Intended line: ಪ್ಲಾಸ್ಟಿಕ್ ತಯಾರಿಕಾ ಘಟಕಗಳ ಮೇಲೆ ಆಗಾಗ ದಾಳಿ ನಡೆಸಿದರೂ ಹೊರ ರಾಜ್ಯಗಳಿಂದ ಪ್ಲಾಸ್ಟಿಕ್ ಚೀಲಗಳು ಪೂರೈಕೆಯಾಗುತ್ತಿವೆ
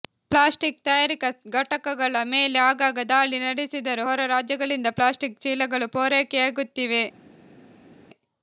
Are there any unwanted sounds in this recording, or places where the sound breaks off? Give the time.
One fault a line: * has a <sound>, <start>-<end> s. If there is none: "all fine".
all fine